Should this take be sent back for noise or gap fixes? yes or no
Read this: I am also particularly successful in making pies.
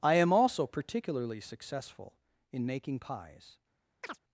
yes